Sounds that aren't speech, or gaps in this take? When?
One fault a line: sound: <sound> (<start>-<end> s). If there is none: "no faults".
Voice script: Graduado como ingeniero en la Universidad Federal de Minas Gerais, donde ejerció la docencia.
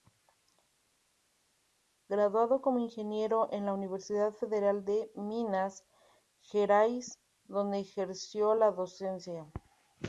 no faults